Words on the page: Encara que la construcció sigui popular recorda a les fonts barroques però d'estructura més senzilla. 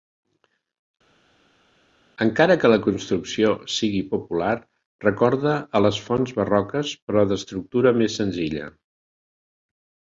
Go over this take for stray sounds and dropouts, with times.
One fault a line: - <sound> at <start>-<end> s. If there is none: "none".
none